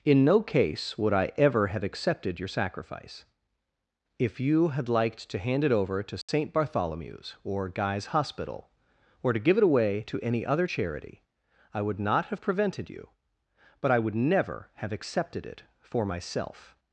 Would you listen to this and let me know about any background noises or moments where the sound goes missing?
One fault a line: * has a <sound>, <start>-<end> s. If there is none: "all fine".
* has a dropout, 6.2-6.3 s